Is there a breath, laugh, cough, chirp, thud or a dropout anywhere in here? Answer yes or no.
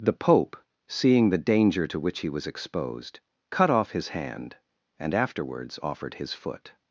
no